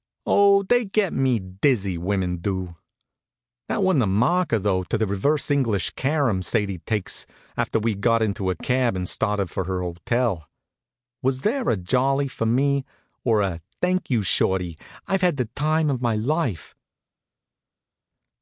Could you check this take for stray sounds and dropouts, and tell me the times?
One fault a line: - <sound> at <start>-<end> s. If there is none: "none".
none